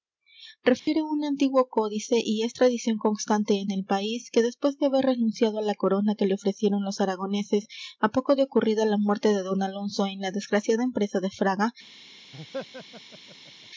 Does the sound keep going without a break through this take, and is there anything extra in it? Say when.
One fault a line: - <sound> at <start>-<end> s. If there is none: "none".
- dropout at 0.8-0.9 s
- laugh at 12.3-13.7 s